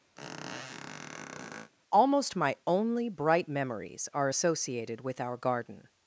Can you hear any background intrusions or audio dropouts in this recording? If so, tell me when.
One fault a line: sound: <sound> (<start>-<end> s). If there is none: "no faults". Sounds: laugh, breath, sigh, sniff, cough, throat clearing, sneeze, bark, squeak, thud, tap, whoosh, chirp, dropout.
sound: squeak (0.2-1.7 s)